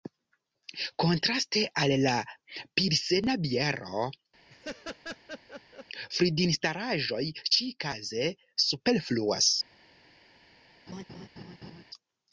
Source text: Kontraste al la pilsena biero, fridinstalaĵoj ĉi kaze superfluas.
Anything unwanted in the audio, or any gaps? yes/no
yes